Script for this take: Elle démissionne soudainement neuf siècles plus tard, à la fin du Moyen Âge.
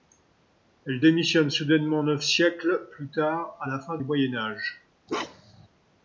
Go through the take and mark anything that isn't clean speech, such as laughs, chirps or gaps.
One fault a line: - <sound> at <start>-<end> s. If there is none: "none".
- bark at 5.1-5.7 s